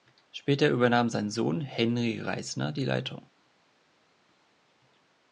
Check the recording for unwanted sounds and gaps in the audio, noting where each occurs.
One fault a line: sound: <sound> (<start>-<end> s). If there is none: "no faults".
no faults